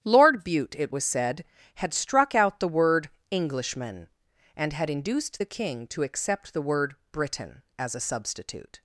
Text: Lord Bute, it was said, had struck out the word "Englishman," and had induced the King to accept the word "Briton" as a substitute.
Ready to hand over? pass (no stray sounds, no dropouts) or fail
pass